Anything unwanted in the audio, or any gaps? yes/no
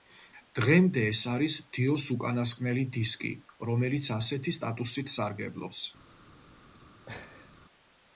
yes